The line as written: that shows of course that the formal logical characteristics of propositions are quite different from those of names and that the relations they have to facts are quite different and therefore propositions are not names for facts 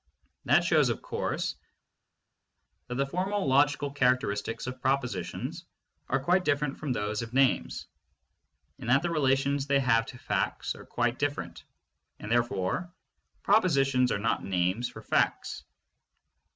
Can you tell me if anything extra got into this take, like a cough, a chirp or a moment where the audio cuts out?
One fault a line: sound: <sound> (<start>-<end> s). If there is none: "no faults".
no faults